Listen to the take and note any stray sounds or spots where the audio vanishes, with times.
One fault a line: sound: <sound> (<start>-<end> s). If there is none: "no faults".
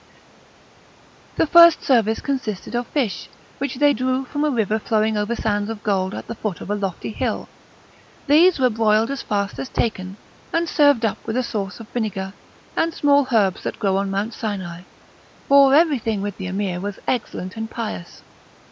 no faults